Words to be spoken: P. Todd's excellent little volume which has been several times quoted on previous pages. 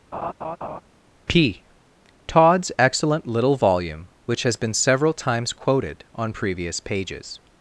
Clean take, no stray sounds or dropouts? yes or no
no